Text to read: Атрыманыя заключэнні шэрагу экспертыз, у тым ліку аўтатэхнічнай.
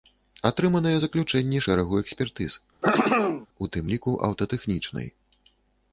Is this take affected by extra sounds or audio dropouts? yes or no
yes